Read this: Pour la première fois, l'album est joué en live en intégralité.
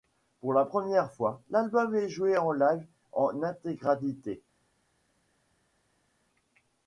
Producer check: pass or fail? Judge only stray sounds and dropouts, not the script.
pass